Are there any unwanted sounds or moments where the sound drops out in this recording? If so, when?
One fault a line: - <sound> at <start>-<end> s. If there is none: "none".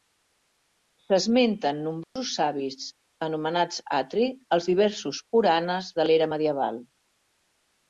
- dropout at 2.0-2.2 s